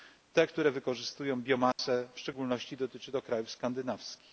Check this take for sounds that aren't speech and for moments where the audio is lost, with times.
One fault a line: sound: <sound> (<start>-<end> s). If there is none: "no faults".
sound: dropout (1.7-1.8 s)